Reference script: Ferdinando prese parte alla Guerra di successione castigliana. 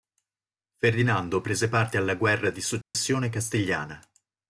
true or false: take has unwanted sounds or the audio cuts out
true